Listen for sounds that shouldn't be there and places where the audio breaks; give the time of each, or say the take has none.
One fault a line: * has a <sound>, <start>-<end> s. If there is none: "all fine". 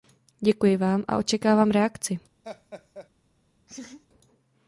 * has a laugh, 2.4-3.1 s
* has a laugh, 3.7-4.1 s